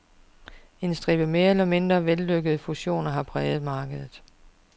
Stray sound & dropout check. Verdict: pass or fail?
pass